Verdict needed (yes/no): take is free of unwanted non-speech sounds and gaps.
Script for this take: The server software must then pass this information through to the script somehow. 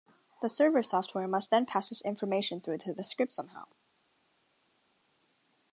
yes